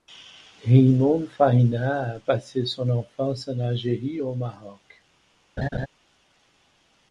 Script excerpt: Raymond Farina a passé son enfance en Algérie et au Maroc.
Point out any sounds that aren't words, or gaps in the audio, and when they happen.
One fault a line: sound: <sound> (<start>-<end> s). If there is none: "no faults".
sound: laugh (5.6-5.9 s)